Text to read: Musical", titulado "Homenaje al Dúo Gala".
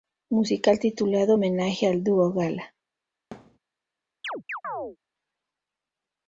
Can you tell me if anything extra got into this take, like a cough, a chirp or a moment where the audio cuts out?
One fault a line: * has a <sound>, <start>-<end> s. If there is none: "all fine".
* has a thud, 3.3-3.6 s
* has a chirp, 4.2-5.0 s